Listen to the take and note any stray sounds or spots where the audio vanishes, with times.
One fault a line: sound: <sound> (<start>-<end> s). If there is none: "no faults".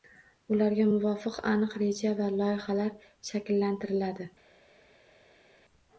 no faults